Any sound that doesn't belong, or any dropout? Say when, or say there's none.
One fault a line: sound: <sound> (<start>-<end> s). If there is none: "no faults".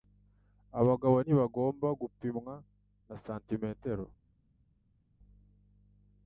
no faults